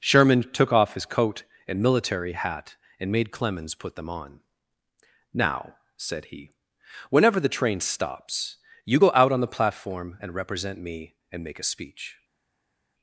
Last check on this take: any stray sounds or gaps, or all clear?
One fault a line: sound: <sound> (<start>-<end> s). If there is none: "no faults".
no faults